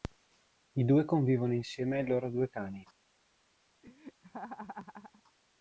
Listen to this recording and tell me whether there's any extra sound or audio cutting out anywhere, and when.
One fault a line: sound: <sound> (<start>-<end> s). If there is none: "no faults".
sound: laugh (3.8-5.2 s)